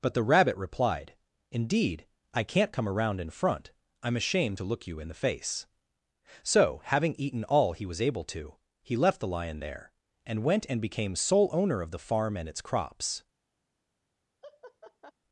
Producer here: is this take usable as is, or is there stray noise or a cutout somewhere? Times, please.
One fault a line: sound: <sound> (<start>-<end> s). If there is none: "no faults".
sound: laugh (14.4-15.1 s)